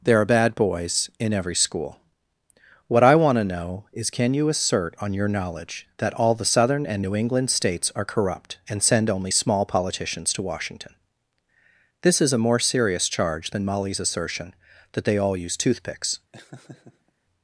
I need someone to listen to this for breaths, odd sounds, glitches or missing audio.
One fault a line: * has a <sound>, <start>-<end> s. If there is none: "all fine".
* has a laugh, 16.3-17.1 s